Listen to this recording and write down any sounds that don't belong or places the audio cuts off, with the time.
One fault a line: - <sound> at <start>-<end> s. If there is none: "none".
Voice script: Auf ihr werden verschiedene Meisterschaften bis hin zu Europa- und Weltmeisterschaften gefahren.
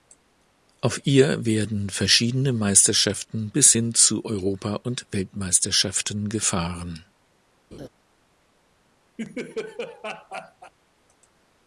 - laugh at 7.7-7.9 s
- laugh at 9.2-10.7 s